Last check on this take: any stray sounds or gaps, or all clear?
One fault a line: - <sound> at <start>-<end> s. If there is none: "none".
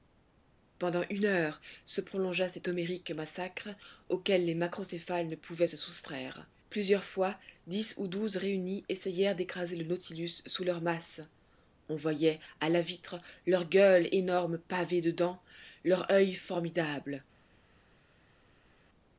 none